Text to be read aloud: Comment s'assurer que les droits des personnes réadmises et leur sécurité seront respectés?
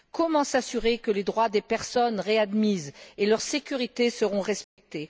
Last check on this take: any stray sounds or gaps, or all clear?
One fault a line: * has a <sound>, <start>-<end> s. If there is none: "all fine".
* has a dropout, 4.6-4.8 s